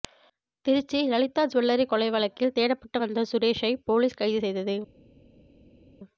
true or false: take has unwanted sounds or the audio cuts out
false